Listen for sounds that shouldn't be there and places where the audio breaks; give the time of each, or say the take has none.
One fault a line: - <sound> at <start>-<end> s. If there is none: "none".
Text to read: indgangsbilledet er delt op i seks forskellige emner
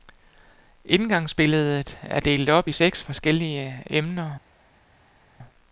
none